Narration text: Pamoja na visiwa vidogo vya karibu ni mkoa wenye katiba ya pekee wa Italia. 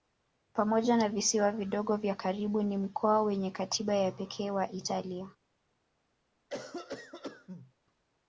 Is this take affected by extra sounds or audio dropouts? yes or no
yes